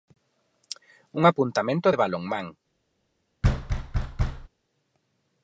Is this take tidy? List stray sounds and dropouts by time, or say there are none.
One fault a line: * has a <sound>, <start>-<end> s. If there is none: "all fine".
* has a thud, 3.4-4.5 s